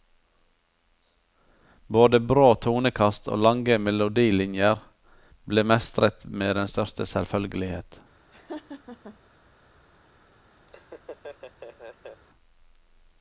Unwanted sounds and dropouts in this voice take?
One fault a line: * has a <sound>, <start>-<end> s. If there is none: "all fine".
* has a laugh, 8.3-9.2 s
* has a laugh, 10.7-12.2 s